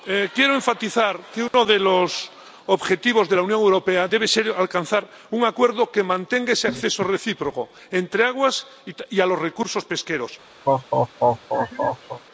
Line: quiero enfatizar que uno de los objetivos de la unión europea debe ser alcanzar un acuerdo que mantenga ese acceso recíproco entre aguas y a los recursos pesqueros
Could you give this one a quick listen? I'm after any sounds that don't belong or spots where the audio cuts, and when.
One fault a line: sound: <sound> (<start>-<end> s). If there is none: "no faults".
sound: dropout (1.5-1.5 s)
sound: laugh (10.7-12.2 s)